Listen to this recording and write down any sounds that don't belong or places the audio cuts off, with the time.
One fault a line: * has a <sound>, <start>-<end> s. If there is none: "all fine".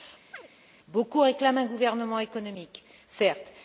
* has a chirp, 0.3-0.5 s